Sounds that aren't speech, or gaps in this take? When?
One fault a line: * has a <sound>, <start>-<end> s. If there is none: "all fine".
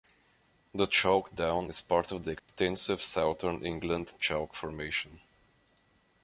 * has a dropout, 2.4-2.5 s